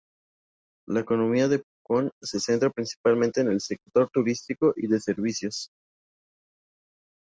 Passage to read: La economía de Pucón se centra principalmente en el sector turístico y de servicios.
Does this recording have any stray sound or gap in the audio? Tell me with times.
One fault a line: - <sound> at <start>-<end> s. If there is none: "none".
none